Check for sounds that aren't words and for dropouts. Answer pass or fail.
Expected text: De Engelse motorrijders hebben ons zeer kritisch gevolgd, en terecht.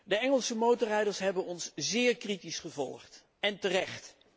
pass